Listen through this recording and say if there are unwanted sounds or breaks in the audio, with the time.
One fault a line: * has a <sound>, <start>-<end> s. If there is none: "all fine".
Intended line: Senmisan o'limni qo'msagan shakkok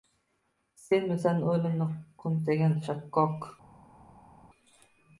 all fine